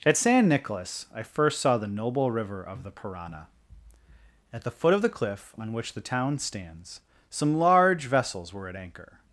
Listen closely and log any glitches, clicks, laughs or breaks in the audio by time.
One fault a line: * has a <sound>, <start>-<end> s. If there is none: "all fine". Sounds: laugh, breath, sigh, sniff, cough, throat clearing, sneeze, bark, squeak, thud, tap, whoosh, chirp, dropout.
all fine